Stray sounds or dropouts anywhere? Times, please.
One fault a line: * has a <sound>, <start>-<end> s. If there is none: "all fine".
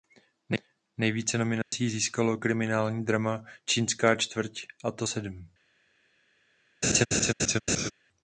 * has a dropout, 1.6-1.7 s
* has a laugh, 6.8-7.9 s